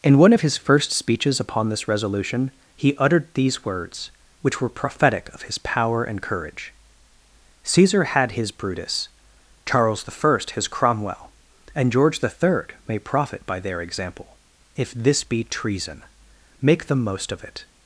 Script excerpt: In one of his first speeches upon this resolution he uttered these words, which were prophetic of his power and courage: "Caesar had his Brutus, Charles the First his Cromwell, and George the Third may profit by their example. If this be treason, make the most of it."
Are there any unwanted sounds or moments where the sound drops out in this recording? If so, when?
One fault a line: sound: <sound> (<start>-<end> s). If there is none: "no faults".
no faults